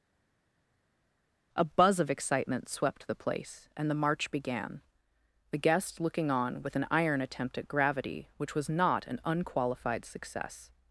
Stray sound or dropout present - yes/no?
no